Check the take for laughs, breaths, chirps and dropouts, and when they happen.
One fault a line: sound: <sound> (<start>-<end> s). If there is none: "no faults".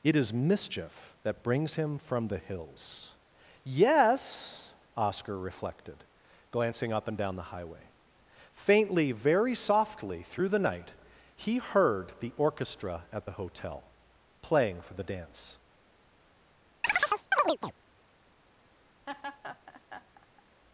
sound: chirp (16.8-17.7 s)
sound: laugh (19.1-20.4 s)